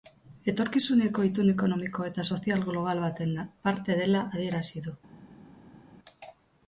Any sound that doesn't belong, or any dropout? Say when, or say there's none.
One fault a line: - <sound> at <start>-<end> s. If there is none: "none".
none